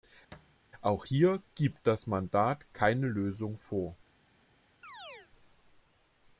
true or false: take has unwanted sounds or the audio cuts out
true